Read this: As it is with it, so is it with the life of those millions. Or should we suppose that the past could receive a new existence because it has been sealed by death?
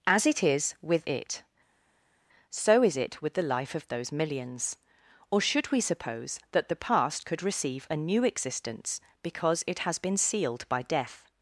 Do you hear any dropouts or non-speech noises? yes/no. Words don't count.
no